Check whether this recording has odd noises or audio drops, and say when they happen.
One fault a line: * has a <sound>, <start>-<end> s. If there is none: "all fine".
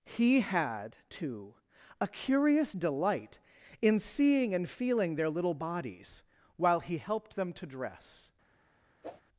* has a whoosh, 9.0-9.2 s